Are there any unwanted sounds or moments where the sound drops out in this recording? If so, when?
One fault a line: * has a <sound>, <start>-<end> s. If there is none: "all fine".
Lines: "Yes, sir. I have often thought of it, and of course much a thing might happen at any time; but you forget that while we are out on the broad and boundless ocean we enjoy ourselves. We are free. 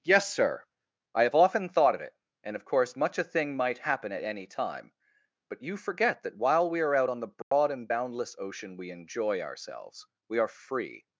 * has a dropout, 7.4-7.5 s